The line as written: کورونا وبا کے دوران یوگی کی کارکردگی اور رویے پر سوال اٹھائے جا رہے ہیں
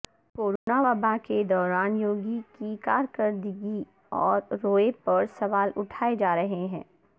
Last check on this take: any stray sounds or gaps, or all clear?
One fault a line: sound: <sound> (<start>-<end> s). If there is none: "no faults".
sound: dropout (0.6-0.7 s)